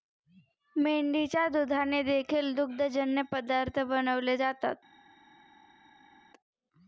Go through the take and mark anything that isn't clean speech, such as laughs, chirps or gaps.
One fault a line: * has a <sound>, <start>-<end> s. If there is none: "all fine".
all fine